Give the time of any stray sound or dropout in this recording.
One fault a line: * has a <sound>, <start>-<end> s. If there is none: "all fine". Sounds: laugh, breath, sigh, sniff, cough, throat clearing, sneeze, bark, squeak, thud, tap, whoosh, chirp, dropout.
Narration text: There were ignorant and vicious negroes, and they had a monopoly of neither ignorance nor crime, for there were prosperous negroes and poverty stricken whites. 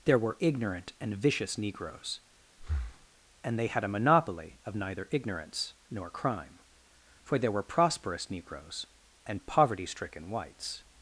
* has a breath, 2.6-3.1 s